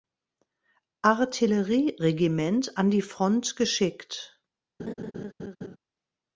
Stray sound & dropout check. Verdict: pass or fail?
fail